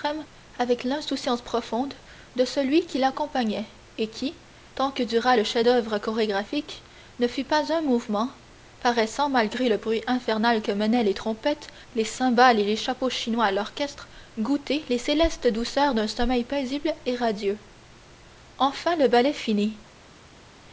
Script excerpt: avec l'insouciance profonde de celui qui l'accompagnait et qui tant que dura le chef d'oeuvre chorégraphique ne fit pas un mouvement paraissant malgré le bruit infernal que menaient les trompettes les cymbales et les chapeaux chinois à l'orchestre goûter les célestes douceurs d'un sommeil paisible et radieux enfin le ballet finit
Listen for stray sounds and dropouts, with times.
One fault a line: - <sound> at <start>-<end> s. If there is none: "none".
none